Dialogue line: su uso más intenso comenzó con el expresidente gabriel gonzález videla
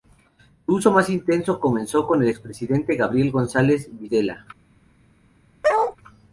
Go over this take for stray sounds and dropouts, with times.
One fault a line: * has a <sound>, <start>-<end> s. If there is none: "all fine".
* has a bark, 5.6-6.0 s